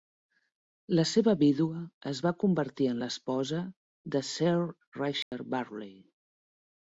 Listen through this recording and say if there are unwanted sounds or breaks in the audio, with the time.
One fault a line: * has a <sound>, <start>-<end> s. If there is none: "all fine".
* has a dropout, 5.2-5.3 s